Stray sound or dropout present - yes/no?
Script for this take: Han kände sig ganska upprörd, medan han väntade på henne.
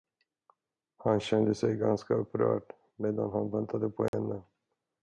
yes